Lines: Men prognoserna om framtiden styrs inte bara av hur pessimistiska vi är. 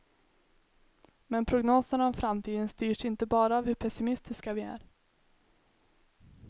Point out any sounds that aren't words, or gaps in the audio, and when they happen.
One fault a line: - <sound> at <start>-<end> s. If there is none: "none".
none